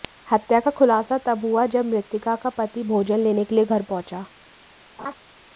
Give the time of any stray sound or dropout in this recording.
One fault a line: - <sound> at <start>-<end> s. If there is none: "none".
- laugh at 5.0-5.1 s